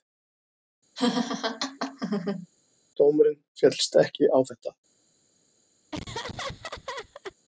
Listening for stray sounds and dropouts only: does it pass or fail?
fail